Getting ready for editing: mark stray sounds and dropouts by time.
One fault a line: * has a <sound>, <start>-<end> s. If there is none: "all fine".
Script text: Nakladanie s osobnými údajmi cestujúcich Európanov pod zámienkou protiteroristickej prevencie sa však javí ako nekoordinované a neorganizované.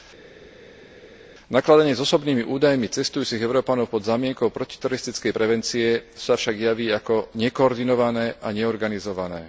all fine